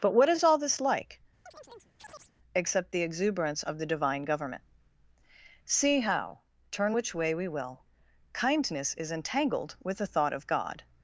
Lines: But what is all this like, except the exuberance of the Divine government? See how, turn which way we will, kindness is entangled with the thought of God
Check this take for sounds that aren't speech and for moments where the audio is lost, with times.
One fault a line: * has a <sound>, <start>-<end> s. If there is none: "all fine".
* has a chirp, 1.5-2.3 s